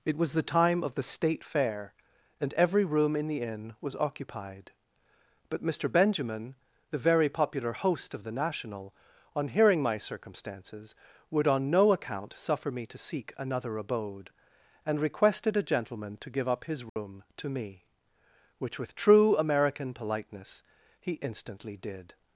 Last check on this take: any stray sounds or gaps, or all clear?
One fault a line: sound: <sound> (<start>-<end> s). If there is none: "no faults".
sound: dropout (16.9-17.0 s)